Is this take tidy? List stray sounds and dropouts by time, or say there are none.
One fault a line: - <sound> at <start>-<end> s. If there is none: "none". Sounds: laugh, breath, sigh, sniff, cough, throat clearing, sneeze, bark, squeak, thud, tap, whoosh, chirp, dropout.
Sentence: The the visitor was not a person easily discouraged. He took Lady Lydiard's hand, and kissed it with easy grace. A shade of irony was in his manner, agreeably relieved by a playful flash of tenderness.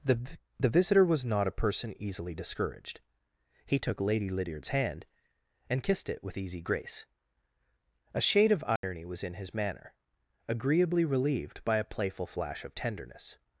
- dropout at 8.8-8.8 s